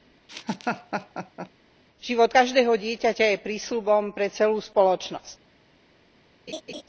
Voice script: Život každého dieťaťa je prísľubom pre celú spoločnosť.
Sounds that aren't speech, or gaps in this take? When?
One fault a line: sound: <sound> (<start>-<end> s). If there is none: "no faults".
sound: laugh (0.3-1.5 s)
sound: laugh (6.5-6.8 s)